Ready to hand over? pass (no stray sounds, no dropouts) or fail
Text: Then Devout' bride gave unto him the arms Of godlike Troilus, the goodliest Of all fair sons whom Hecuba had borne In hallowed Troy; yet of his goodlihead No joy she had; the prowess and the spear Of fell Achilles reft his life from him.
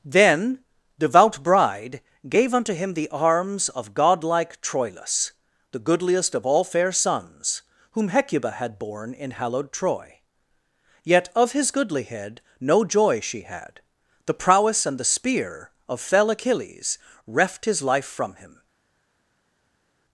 pass